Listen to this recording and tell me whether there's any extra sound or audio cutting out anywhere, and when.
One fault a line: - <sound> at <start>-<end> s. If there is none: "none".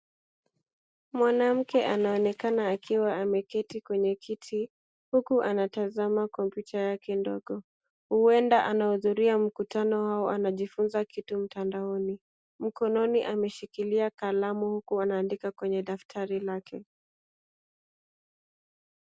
none